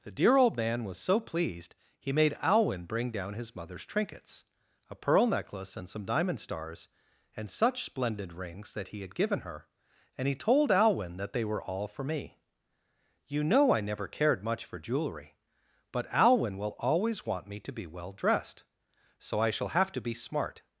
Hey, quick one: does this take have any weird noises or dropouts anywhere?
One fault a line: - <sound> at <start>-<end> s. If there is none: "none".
none